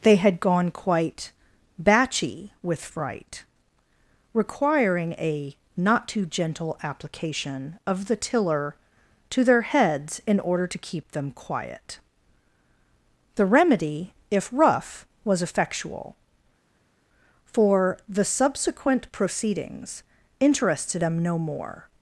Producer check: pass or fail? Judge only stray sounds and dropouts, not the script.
pass